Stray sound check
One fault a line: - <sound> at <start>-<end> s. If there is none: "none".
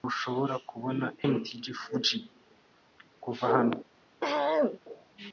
- throat clearing at 4.2-4.8 s